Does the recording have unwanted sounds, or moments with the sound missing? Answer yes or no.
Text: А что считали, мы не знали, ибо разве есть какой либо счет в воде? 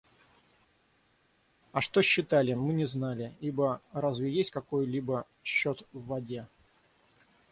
no